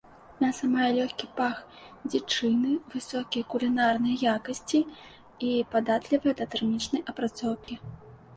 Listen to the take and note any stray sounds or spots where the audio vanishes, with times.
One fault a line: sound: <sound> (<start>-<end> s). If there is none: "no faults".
sound: dropout (7.6-7.7 s)